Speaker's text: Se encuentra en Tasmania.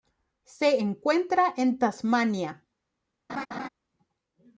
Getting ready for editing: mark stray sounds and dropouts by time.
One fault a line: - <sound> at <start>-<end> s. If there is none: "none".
- laugh at 3.3-3.7 s